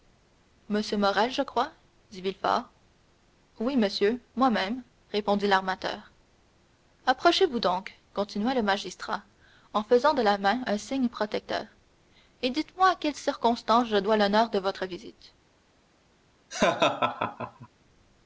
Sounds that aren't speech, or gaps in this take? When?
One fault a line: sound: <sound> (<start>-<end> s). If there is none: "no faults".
sound: laugh (16.5-17.7 s)